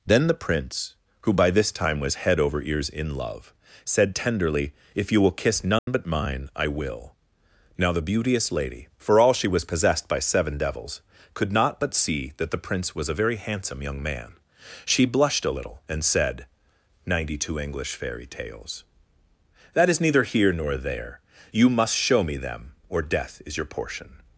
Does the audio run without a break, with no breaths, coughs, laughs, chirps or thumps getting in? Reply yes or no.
no